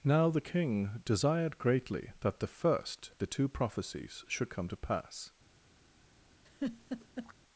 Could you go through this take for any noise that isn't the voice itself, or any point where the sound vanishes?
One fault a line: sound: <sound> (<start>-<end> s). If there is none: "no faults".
sound: laugh (6.5-7.3 s)